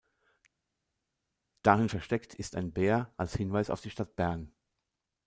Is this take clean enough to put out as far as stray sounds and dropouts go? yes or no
yes